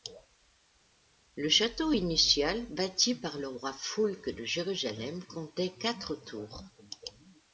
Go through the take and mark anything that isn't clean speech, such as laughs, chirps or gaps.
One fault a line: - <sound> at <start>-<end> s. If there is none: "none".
none